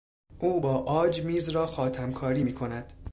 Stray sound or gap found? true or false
false